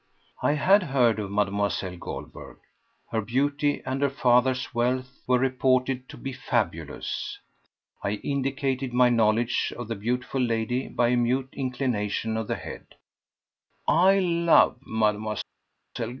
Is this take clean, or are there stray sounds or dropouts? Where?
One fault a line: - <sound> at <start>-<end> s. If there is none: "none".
none